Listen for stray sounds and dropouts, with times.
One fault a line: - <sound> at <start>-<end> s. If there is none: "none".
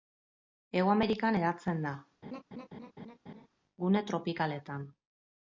- laugh at 2.2-3.5 s